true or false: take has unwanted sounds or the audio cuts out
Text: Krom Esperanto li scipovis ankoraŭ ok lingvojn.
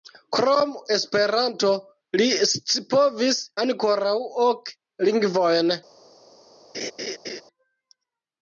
true